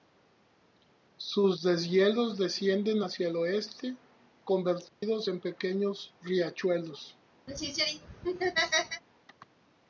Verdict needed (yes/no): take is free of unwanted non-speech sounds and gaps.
no